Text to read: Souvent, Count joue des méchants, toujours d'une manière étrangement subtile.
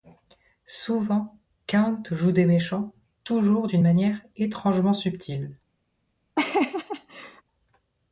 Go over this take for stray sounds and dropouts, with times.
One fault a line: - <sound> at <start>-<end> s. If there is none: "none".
- laugh at 6.4-7.4 s